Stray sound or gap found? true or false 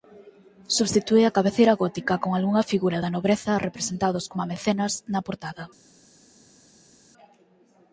false